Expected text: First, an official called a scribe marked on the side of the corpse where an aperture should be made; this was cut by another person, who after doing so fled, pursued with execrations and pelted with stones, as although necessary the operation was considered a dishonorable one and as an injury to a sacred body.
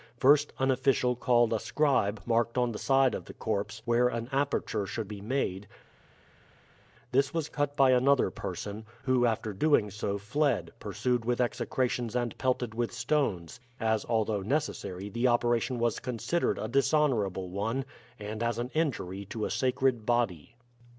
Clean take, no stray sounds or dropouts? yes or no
yes